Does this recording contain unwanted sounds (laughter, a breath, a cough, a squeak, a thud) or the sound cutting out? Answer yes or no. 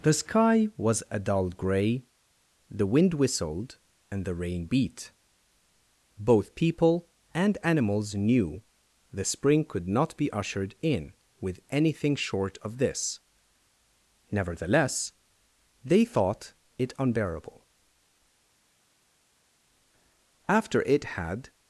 no